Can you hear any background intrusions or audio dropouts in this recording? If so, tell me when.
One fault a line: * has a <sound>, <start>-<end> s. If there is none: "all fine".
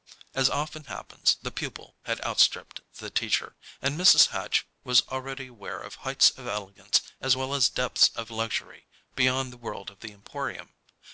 all fine